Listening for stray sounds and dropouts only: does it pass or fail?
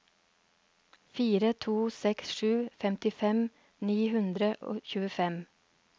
pass